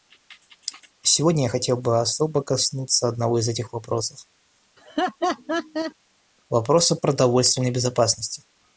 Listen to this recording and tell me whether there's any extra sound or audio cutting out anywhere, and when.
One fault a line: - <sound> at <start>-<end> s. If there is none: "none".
- laugh at 4.8-5.9 s